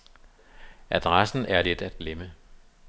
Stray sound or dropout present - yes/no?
no